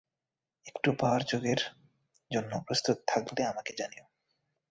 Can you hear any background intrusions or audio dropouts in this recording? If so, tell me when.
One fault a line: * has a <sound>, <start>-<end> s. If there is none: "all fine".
all fine